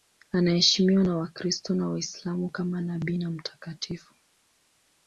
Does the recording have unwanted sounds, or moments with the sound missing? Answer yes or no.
no